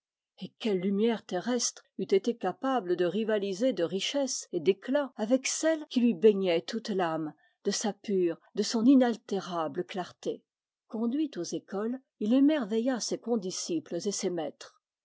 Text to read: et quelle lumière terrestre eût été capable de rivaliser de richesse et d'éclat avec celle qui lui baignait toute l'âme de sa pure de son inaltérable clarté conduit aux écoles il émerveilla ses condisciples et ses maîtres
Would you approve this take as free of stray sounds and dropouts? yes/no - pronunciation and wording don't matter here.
yes